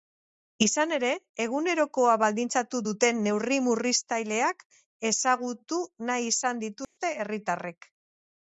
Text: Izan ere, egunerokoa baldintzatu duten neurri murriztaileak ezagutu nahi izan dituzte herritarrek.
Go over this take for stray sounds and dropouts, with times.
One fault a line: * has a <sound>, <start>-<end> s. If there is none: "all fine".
* has a dropout, 6.8-7.0 s